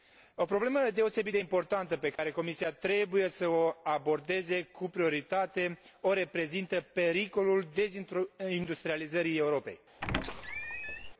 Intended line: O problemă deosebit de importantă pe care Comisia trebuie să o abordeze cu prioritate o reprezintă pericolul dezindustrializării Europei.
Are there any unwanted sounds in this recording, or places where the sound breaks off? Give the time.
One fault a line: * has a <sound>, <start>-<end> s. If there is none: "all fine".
* has a dropout, 2.2-2.2 s
* has a squeak, 10.0-11.1 s